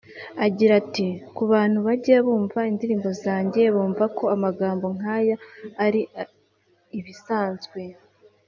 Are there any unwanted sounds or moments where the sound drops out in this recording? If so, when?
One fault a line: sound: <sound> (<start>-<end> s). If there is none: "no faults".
no faults